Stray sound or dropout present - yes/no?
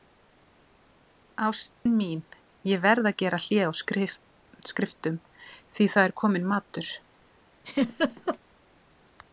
yes